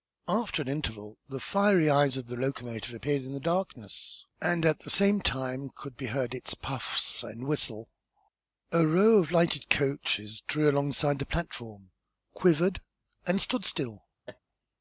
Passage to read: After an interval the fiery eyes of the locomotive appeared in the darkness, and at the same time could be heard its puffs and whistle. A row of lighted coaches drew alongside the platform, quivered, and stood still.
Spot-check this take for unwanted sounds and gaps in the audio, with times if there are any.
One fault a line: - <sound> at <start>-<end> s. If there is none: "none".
- laugh at 14.3-14.4 s